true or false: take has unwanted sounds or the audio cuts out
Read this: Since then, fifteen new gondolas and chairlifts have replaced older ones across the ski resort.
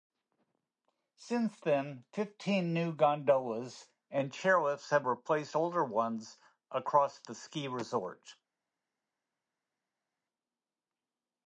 false